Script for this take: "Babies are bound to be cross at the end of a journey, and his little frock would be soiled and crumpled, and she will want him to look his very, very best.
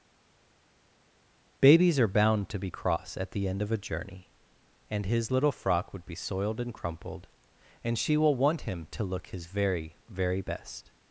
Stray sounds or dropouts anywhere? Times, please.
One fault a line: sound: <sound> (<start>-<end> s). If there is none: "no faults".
no faults